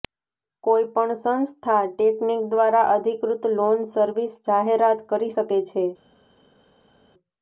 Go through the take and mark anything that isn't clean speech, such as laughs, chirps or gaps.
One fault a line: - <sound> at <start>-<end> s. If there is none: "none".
none